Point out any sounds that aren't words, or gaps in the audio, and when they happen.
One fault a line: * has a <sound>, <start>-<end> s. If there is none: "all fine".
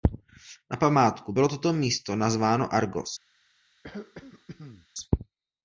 * has a throat clearing, 3.8-4.9 s